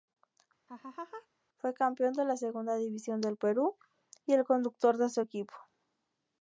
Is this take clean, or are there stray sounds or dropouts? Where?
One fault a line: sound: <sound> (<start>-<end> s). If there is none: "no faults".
sound: laugh (0.7-1.3 s)